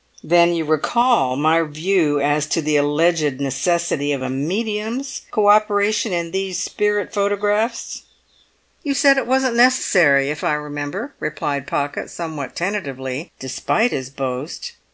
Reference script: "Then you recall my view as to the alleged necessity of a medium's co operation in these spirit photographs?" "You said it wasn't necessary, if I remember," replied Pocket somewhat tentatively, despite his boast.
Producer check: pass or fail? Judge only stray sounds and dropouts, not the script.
pass